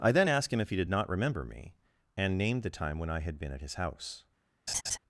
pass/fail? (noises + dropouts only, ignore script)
fail